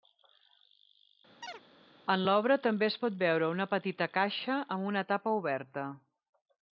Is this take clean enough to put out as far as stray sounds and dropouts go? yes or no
no